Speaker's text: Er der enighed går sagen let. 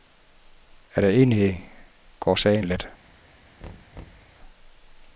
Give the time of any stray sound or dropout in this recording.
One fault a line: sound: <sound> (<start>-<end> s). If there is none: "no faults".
sound: thud (3.6-4.3 s)